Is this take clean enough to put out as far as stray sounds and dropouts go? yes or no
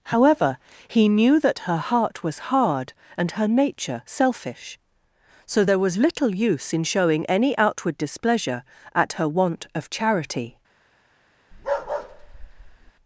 no